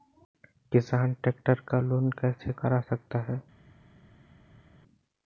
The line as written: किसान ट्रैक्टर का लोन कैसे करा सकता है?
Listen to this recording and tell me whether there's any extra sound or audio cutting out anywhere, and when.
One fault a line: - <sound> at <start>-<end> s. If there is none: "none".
none